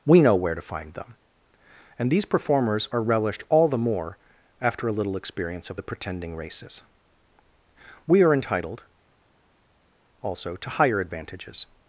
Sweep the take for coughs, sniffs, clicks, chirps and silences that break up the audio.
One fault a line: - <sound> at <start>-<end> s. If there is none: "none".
none